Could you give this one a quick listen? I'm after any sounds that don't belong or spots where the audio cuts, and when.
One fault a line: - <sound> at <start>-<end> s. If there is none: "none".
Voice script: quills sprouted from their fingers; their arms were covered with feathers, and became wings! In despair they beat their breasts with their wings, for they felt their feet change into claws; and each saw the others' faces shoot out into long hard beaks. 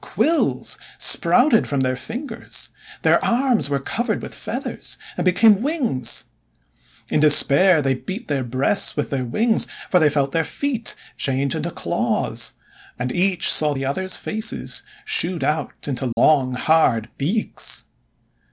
- dropout at 16.1-16.2 s